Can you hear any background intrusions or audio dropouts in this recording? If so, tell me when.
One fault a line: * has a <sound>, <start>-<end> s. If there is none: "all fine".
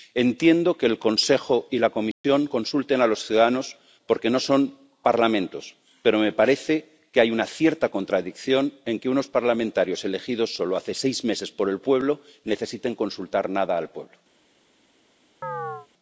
* has a dropout, 2.1-2.2 s
* has a chirp, 15.4-15.9 s